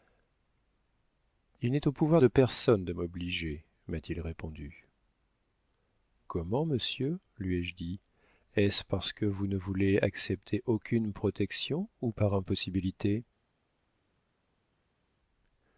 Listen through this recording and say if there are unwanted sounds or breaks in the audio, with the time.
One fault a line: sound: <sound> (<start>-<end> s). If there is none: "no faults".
no faults